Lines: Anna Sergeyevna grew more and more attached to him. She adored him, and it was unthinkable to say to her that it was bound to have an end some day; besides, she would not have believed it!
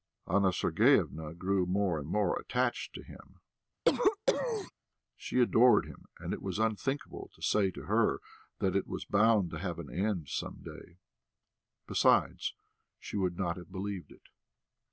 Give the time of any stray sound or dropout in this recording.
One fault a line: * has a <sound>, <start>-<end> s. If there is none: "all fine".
* has a cough, 3.9-4.7 s